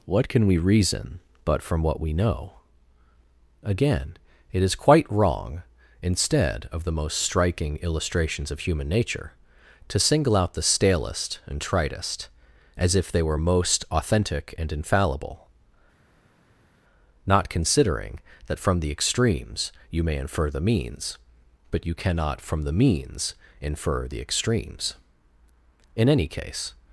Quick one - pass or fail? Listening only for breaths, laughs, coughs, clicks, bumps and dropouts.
pass